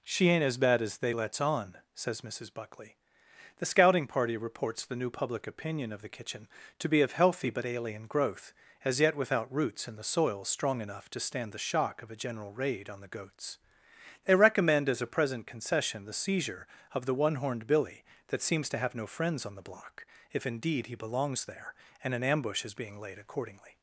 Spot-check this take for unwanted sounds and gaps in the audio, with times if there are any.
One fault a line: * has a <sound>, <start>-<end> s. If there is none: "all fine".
all fine